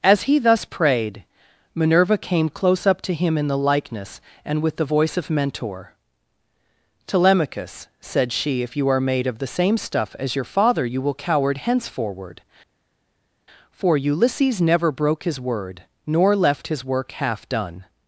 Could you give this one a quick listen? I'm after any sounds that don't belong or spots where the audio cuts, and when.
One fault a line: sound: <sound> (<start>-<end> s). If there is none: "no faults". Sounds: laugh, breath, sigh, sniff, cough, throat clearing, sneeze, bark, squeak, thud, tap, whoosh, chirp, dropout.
no faults